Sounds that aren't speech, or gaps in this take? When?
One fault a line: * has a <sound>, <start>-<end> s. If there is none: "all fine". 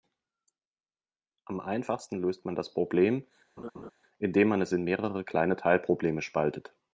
* has a laugh, 3.6-3.9 s